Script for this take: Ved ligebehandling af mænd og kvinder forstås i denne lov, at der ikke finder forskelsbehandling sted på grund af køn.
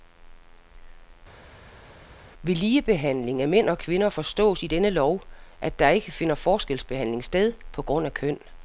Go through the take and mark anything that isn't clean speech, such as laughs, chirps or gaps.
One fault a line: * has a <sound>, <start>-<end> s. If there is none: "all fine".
all fine